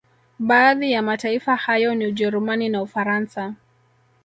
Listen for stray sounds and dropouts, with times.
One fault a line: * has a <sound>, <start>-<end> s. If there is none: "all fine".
all fine